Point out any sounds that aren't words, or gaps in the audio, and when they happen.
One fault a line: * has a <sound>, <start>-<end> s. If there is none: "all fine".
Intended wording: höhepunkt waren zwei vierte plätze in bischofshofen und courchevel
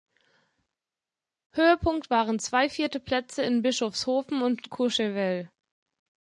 all fine